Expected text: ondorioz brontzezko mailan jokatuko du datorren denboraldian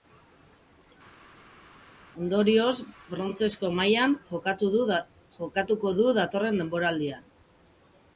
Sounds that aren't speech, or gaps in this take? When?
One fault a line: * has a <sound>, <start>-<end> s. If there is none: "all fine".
all fine